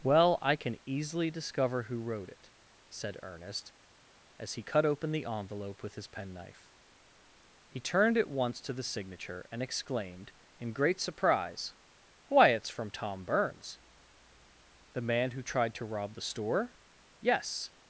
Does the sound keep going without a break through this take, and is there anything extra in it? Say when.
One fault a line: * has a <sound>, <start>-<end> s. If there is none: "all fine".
all fine